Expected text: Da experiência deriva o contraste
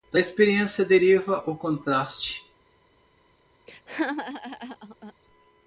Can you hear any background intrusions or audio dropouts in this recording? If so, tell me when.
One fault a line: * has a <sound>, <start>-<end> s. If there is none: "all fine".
* has a laugh, 3.7-5.1 s